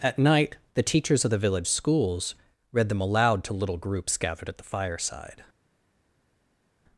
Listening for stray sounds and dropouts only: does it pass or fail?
pass